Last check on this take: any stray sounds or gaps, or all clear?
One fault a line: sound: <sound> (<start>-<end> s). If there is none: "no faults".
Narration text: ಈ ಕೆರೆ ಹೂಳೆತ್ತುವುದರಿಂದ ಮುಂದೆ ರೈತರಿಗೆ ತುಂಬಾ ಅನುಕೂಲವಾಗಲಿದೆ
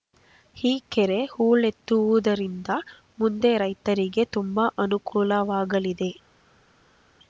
no faults